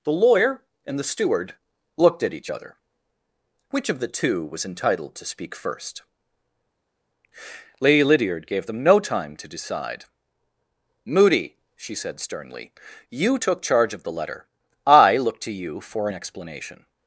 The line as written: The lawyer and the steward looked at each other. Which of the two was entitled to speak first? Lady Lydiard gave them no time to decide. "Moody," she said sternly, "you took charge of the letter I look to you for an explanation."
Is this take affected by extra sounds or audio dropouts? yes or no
no